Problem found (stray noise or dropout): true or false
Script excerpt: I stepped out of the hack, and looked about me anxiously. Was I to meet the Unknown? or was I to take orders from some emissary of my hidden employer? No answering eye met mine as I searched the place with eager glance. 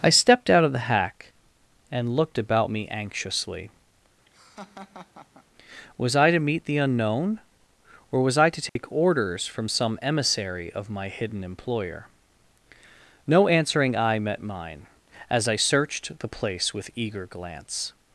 true